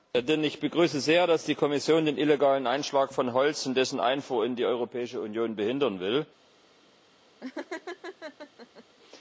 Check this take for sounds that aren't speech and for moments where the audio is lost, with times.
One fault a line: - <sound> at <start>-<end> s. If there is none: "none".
- laugh at 7.4-8.8 s